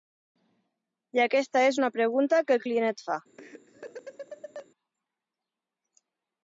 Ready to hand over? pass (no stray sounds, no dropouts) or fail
fail